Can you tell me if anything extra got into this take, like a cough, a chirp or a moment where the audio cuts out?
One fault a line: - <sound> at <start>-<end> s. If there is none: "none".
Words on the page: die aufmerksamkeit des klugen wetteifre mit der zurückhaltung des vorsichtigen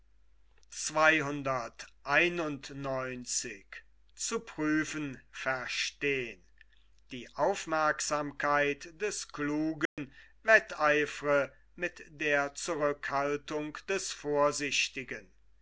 - dropout at 9.9-10.0 s